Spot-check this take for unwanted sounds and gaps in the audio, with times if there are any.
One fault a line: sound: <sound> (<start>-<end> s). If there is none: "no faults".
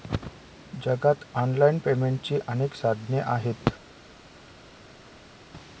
no faults